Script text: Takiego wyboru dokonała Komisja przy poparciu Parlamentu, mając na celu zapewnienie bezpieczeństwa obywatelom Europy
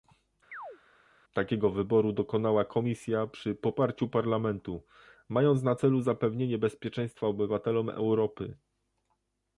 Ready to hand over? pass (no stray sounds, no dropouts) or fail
fail